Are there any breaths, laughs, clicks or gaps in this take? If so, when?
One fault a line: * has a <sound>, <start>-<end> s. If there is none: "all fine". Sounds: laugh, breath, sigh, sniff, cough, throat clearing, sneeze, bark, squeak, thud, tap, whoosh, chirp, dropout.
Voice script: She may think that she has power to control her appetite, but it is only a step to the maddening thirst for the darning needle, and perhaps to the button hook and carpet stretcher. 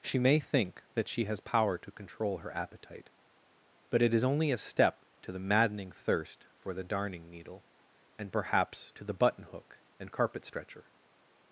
all fine